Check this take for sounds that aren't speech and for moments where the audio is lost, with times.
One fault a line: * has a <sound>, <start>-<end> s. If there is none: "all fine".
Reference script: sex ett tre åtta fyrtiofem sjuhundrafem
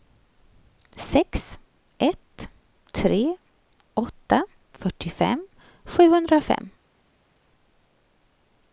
all fine